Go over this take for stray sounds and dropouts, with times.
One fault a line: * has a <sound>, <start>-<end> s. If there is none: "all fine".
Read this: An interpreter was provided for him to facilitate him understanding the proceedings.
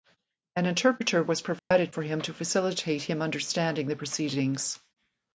* has a dropout, 1.6-1.7 s